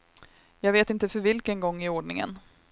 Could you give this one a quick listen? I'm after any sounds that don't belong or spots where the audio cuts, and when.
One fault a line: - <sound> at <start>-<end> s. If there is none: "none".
none